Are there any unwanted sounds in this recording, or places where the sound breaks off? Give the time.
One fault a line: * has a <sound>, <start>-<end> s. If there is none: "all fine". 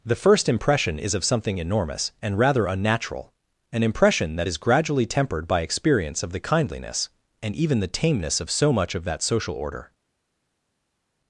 all fine